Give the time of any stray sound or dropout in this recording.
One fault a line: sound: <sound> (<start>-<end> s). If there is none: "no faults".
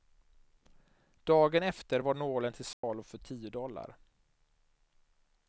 sound: dropout (2.7-2.8 s)